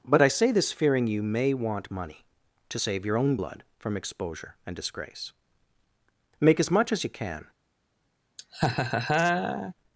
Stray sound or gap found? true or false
true